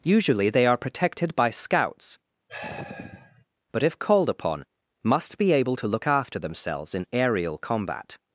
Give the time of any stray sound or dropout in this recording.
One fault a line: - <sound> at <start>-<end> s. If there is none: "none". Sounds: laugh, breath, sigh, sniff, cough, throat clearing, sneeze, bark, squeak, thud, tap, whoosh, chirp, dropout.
- sigh at 2.5-3.5 s